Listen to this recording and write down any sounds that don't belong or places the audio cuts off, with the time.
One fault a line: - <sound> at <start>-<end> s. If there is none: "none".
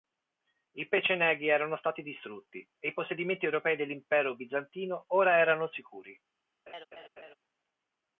- laugh at 6.7-7.4 s